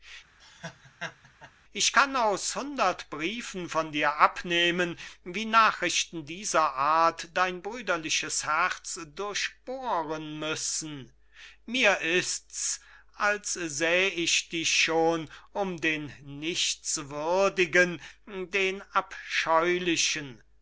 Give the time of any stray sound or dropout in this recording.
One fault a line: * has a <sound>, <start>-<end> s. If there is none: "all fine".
* has a laugh, 0.4-1.5 s